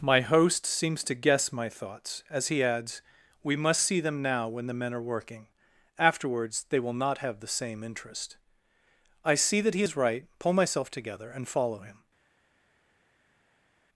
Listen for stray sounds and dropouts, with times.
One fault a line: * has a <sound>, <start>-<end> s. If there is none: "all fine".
all fine